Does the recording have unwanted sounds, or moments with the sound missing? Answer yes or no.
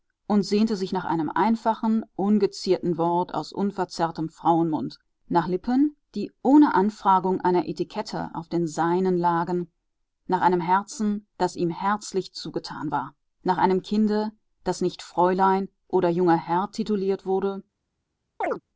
yes